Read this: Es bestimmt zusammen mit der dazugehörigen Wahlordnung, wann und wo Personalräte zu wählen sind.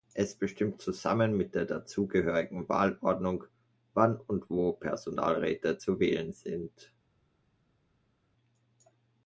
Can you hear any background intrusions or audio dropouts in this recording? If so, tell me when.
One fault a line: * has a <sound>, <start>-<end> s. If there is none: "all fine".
all fine